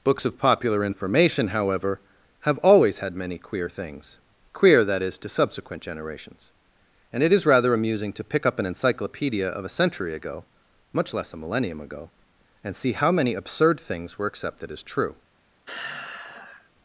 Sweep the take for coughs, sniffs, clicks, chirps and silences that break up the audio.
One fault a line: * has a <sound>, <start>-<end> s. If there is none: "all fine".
* has a sigh, 15.7-16.7 s